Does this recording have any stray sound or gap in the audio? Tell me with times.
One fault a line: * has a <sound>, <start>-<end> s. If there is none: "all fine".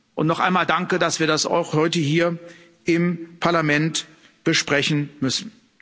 all fine